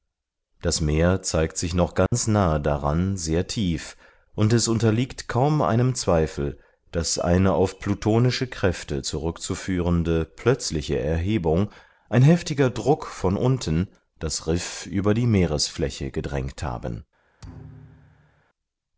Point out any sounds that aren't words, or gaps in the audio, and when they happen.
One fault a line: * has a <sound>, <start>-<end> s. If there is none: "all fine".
* has a dropout, 2.1-2.1 s
* has a thud, 17.4-18.4 s